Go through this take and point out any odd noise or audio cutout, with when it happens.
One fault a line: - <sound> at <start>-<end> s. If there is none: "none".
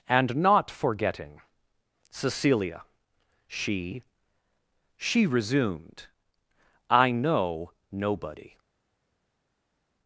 none